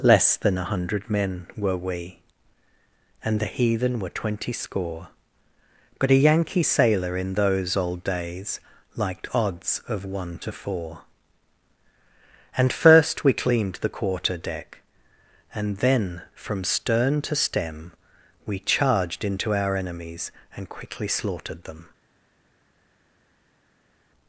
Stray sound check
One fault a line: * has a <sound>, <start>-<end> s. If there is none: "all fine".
all fine